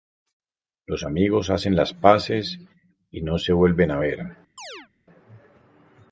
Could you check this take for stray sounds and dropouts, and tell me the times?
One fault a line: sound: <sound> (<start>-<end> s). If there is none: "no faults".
sound: chirp (4.6-4.9 s)